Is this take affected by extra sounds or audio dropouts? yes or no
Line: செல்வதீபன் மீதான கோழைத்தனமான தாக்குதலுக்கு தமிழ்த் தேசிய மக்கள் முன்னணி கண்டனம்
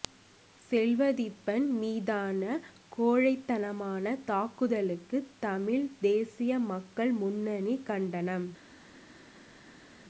no